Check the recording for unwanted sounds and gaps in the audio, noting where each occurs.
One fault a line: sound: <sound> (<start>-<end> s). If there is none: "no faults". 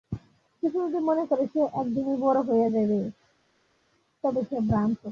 no faults